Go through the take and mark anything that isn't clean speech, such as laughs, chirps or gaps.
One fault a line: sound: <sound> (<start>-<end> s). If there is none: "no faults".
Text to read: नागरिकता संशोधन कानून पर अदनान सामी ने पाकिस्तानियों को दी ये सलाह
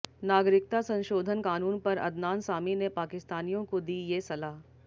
no faults